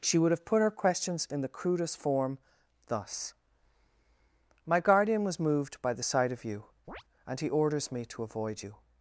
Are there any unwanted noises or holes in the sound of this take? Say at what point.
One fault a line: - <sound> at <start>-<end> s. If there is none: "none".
- chirp at 6.9-7.0 s